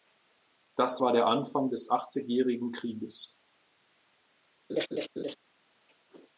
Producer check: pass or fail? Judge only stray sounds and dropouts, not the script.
fail